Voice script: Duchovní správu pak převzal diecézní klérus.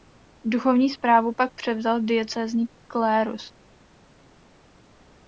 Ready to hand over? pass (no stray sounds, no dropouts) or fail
pass